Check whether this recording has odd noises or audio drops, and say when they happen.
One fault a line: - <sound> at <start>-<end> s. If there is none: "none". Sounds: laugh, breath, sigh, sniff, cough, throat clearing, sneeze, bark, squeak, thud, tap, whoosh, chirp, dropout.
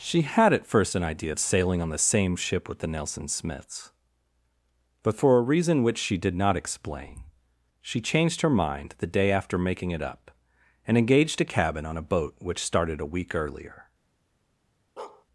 - bark at 15.0-15.3 s